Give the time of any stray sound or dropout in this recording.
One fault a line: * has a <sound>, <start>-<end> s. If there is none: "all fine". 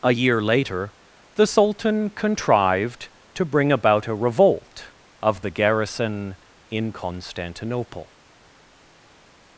all fine